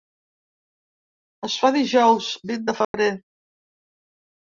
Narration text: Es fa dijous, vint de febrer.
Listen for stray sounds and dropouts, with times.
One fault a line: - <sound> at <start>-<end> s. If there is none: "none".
- dropout at 2.8-2.9 s